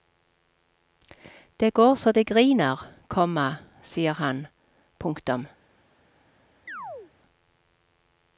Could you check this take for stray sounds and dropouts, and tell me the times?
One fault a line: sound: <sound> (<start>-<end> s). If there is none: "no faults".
sound: chirp (6.7-7.1 s)